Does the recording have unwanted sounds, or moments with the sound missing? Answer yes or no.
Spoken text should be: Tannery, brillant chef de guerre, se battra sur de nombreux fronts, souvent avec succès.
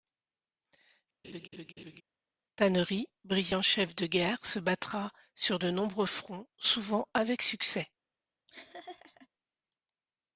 yes